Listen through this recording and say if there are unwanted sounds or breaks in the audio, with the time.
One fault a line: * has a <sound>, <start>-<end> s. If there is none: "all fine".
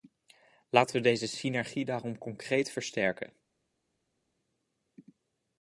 all fine